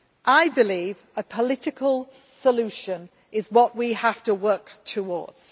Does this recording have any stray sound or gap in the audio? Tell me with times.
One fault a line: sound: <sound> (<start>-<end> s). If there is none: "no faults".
no faults